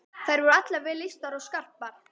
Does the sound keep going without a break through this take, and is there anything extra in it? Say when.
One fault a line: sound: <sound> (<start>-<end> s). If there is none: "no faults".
no faults